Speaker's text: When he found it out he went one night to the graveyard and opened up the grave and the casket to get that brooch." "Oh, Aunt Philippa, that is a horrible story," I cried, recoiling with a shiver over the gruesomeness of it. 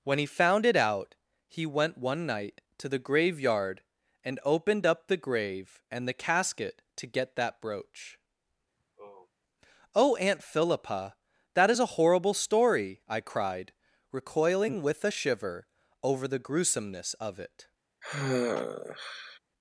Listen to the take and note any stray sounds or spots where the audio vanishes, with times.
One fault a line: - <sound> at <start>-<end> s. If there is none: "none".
- sigh at 8.8-9.3 s
- sigh at 18.0-19.4 s